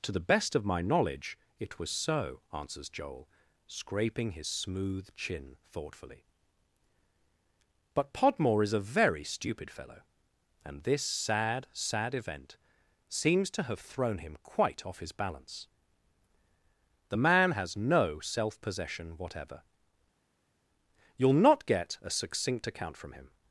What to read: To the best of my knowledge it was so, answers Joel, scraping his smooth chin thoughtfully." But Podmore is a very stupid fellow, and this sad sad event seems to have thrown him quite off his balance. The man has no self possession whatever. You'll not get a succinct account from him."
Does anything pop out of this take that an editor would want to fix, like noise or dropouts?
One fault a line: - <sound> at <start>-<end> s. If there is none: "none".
none